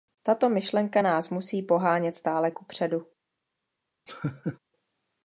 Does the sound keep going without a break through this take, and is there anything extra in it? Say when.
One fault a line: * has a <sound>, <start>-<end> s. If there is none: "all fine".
* has a laugh, 4.1-4.6 s